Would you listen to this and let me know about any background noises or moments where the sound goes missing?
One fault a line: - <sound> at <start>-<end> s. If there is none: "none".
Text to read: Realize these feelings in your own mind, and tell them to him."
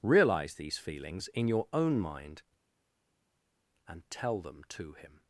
none